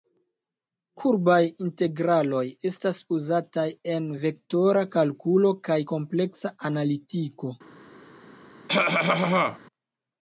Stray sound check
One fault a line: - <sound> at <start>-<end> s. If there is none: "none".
- cough at 8.7-9.6 s